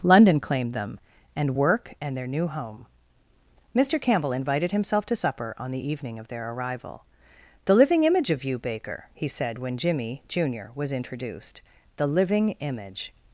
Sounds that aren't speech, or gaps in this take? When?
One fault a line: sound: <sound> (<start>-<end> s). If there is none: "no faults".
no faults